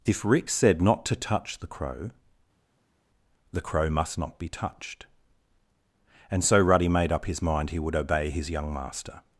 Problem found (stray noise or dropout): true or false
false